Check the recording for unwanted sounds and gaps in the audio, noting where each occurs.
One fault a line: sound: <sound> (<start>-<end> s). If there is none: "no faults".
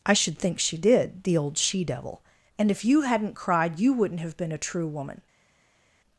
no faults